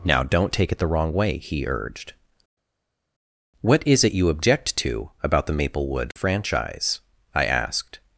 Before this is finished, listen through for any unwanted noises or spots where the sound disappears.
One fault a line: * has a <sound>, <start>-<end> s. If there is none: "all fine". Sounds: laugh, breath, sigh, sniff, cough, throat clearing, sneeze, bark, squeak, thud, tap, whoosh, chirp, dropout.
all fine